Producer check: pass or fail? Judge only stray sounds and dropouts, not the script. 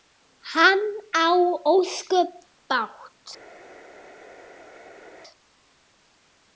pass